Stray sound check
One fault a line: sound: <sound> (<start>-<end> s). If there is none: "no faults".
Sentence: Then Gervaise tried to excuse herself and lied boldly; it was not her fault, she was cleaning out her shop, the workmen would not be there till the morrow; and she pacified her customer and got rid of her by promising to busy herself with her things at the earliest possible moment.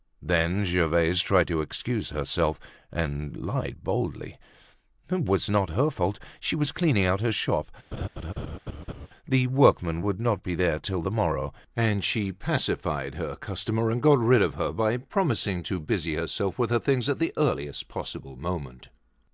sound: laugh (7.9-9.1 s)